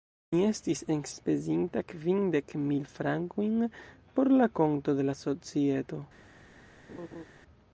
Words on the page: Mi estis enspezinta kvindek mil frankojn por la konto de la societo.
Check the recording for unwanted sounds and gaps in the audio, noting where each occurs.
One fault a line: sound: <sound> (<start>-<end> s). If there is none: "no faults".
sound: laugh (6.9-7.3 s)